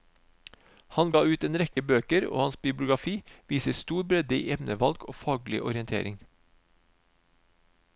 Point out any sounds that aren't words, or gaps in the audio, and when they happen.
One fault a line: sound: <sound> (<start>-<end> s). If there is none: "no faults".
sound: dropout (1.7-1.8 s)